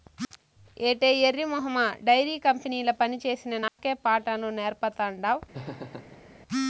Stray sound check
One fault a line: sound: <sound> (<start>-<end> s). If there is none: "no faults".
sound: dropout (3.7-3.8 s)
sound: laugh (5.5-6.3 s)